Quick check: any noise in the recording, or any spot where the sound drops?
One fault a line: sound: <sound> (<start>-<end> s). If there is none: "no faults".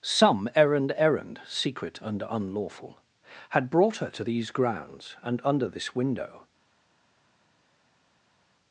no faults